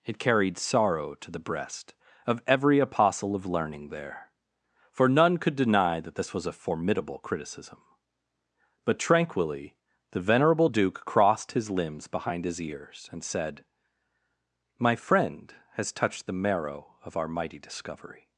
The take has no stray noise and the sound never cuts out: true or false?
true